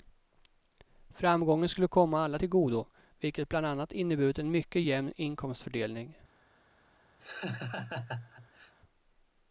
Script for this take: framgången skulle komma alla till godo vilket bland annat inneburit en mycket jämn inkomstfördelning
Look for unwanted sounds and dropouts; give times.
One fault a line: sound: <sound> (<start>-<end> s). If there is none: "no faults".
sound: laugh (7.2-8.7 s)